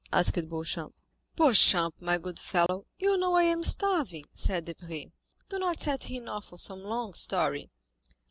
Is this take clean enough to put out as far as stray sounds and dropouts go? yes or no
no